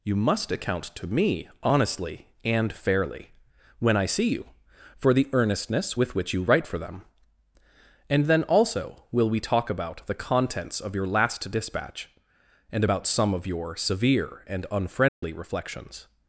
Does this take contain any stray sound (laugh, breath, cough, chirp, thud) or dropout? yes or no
yes